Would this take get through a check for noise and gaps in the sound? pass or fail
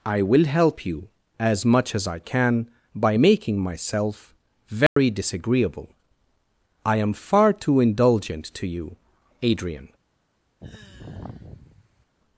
fail